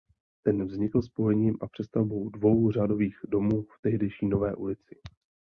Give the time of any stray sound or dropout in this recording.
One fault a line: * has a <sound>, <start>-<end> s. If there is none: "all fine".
all fine